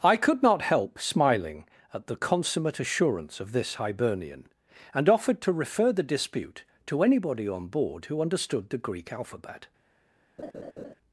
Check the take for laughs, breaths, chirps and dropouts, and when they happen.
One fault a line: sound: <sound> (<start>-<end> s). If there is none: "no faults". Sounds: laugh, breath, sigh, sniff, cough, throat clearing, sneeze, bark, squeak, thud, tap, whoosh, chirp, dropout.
sound: laugh (10.4-10.9 s)